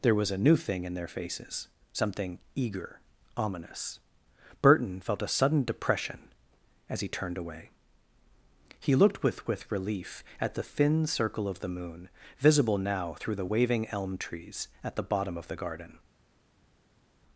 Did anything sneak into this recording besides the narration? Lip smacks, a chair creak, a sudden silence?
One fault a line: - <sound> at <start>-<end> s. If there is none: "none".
none